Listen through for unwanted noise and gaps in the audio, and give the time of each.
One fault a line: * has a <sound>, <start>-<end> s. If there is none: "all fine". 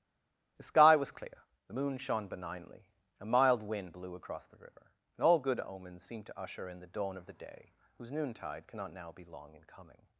all fine